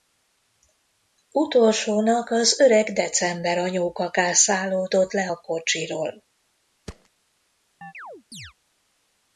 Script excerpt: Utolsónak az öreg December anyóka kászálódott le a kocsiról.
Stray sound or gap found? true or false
true